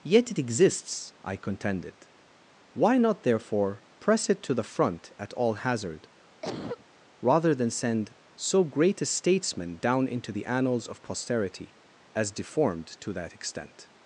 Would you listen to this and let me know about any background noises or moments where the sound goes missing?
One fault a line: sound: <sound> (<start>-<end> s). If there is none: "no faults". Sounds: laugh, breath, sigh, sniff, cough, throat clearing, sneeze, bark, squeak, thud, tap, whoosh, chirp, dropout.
sound: cough (6.4-6.9 s)